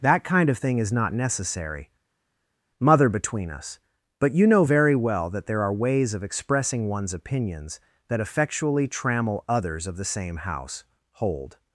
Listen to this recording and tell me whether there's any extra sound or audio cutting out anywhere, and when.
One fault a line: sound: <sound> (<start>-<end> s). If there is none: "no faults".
no faults